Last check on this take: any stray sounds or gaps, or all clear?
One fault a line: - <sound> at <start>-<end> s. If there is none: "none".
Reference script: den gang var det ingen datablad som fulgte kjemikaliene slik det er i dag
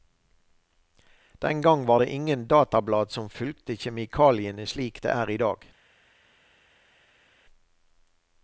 none